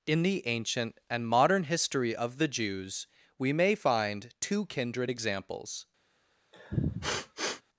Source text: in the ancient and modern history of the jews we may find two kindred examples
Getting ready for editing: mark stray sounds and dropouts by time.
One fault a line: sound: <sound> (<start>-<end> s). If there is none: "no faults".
sound: sniff (6.5-7.6 s)